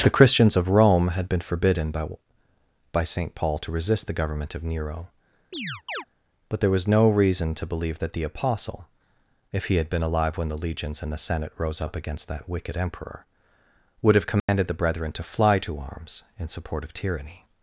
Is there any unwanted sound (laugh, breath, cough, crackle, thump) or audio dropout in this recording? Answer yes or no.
yes